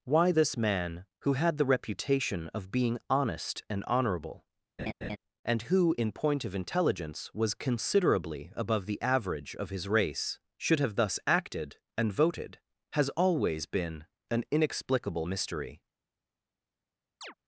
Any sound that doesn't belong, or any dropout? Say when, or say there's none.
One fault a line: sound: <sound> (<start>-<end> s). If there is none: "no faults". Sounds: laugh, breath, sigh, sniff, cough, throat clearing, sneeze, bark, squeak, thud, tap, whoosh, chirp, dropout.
sound: laugh (4.8-5.2 s)
sound: chirp (17.2-17.3 s)